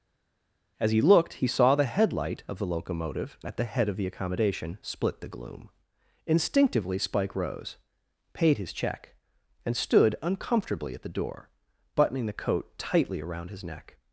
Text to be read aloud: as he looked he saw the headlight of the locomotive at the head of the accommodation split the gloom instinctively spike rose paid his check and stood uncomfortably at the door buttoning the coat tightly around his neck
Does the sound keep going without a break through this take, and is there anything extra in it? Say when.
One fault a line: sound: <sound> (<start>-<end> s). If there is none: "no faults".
no faults